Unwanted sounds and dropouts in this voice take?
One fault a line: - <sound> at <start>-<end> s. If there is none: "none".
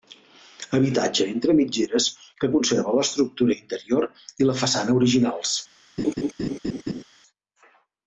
- laugh at 6.0-7.0 s